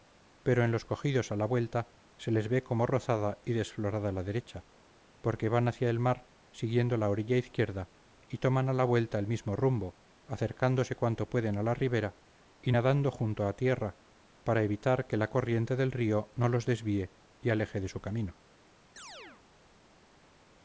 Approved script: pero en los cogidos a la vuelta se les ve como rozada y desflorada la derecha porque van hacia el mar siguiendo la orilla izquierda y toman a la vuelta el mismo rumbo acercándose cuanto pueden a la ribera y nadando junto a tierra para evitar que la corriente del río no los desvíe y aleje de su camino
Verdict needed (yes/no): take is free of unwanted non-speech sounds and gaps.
no